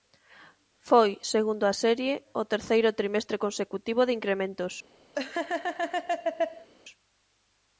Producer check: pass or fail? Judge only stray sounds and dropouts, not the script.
fail